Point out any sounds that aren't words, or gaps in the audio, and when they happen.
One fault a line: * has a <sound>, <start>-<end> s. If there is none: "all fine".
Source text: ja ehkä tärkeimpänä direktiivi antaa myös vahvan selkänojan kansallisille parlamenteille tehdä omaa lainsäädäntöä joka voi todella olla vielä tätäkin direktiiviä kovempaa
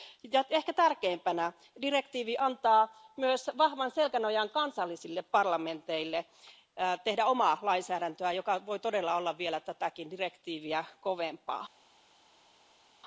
all fine